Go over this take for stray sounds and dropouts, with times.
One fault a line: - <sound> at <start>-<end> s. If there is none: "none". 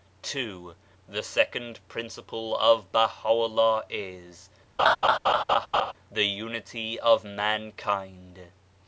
- laugh at 4.8-5.9 s